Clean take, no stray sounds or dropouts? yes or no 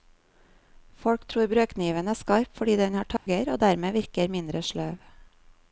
no